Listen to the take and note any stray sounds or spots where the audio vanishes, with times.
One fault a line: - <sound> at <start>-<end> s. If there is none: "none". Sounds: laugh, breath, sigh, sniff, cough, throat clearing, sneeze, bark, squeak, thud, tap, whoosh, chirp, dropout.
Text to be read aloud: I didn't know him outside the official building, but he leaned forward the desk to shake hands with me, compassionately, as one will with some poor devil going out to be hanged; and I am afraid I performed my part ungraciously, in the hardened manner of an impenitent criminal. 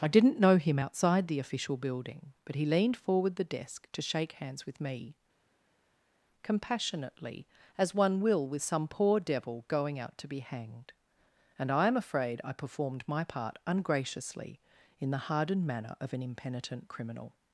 none